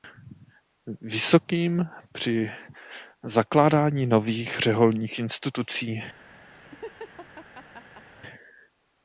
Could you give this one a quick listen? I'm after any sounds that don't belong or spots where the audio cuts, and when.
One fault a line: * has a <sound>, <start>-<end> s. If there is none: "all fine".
* has a laugh, 6.5-8.1 s